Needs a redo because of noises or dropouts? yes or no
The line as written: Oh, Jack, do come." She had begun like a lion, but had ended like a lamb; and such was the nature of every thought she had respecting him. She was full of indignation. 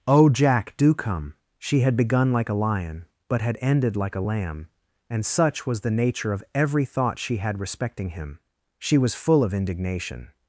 no